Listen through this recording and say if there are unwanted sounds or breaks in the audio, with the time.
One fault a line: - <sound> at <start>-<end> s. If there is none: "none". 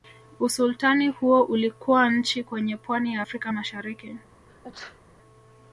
- sneeze at 4.5-5.0 s